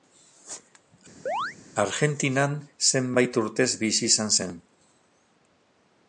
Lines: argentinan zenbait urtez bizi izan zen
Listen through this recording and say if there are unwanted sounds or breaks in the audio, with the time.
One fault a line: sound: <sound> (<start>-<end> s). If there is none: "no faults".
sound: chirp (1.3-1.6 s)